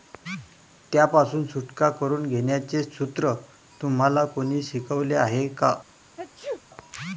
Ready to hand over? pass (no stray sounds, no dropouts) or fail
fail